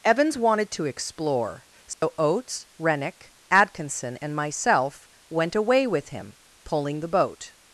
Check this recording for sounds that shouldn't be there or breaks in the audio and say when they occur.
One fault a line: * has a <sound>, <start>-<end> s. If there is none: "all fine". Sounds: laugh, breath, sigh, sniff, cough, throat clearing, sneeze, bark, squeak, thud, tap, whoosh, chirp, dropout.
* has a dropout, 1.9-2.0 s